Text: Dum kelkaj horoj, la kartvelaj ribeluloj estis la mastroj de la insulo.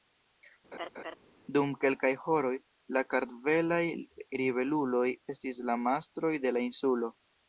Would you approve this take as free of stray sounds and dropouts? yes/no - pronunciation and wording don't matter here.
no